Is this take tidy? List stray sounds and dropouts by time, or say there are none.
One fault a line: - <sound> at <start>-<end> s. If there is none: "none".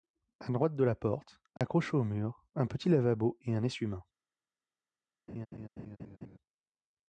- dropout at 1.6-1.6 s
- laugh at 5.3-6.4 s